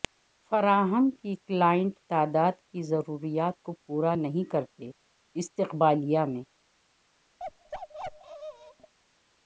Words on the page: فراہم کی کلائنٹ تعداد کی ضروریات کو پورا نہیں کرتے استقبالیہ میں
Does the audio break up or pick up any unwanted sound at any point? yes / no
yes